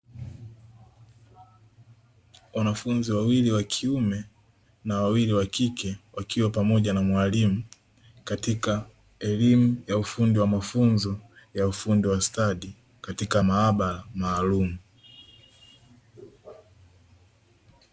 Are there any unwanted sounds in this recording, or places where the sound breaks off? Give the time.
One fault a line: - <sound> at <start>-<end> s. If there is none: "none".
none